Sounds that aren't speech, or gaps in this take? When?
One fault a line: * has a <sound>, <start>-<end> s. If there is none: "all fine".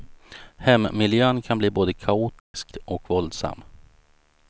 * has a dropout, 2.4-2.5 s